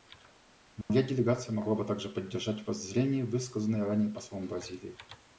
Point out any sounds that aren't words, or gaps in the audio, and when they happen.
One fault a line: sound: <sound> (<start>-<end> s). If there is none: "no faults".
sound: dropout (0.8-0.9 s)